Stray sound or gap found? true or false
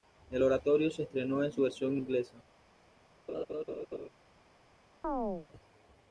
true